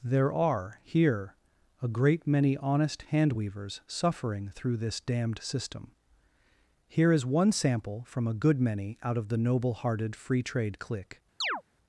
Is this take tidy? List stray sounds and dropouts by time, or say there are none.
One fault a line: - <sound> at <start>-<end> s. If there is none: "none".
- chirp at 11.4-11.6 s